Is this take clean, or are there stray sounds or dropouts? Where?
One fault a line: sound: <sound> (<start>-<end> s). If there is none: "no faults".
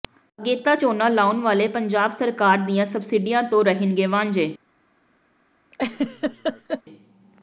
sound: laugh (5.7-6.8 s)